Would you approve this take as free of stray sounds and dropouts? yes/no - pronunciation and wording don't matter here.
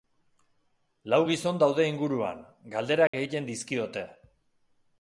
no